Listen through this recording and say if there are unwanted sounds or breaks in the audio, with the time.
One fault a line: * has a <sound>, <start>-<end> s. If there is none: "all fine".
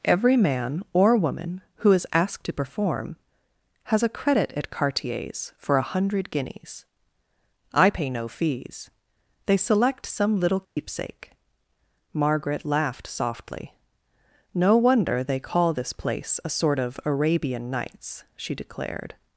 * has a dropout, 10.6-10.8 s